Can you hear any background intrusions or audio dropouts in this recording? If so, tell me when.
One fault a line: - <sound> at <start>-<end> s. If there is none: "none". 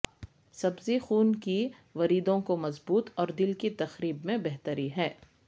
none